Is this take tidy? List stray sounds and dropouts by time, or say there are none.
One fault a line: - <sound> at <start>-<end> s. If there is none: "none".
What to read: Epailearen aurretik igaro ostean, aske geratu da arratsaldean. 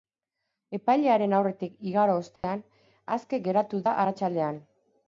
- dropout at 2.4-2.4 s